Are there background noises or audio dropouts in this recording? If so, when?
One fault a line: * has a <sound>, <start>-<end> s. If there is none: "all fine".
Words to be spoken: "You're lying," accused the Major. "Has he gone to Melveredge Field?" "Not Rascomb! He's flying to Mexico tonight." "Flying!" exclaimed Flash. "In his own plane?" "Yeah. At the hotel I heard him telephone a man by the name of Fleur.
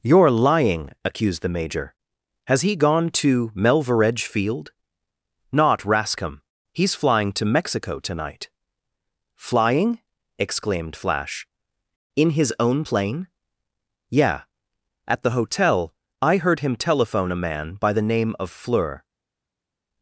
all fine